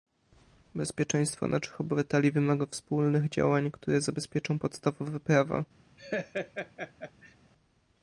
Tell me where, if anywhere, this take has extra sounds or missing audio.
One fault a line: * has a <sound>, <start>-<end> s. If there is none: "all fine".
* has a laugh, 6.0-7.4 s